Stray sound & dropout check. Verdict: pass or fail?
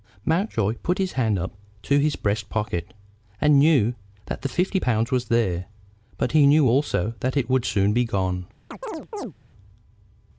fail